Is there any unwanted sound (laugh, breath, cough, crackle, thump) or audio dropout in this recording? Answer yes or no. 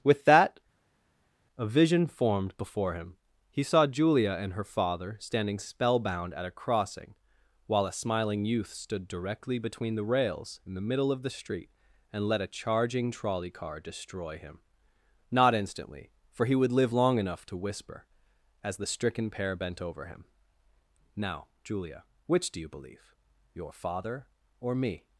no